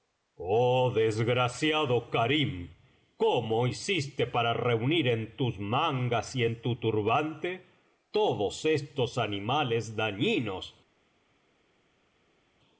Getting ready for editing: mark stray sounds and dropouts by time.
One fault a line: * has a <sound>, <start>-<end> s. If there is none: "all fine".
all fine